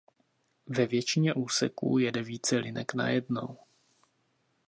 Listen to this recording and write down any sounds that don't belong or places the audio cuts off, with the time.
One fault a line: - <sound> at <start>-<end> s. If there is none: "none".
none